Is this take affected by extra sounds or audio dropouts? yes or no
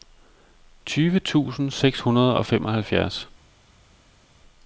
no